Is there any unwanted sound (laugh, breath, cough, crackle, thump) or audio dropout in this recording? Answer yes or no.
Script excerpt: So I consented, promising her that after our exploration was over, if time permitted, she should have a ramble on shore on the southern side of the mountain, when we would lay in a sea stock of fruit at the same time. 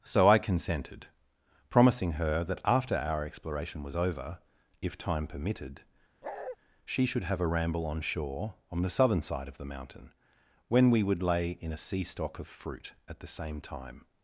yes